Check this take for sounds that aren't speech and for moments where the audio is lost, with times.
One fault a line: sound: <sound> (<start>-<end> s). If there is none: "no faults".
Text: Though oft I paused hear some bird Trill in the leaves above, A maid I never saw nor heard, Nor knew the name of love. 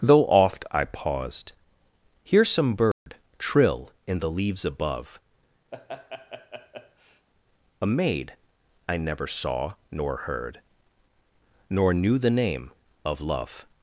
sound: dropout (2.9-3.1 s)
sound: laugh (5.7-7.3 s)